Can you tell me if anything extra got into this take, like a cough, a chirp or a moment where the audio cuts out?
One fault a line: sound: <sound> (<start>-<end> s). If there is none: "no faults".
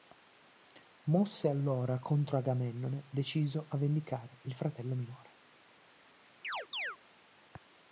sound: chirp (6.4-7.0 s)